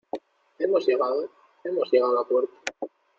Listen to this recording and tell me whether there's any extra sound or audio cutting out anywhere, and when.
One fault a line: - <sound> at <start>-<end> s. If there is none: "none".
none